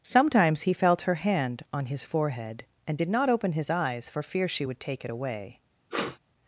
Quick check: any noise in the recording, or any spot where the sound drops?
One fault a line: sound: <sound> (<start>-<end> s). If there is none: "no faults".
sound: sniff (5.9-6.2 s)